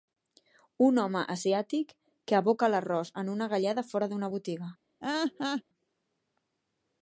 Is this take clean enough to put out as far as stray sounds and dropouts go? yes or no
no